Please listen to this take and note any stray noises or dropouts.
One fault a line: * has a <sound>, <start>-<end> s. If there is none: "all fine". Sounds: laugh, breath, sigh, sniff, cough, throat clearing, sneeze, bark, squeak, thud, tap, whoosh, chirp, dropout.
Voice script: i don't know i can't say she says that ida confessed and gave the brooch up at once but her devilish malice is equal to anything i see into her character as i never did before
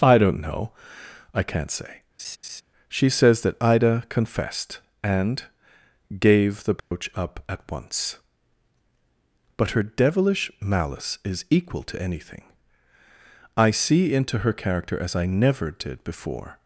* has a laugh, 2.2-2.6 s
* has a dropout, 6.8-6.9 s